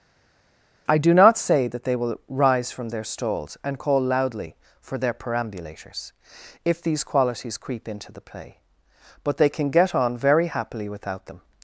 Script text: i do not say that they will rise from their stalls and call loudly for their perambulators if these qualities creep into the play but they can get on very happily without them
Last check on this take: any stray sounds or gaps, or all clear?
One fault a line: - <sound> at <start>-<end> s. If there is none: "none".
none